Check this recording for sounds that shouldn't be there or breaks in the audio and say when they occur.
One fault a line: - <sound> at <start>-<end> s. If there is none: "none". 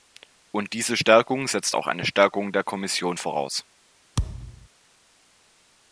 - thud at 4.2-4.7 s